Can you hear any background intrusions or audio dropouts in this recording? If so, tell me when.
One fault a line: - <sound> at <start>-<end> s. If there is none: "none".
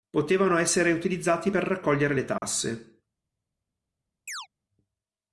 - dropout at 2.4-2.4 s
- chirp at 4.3-4.5 s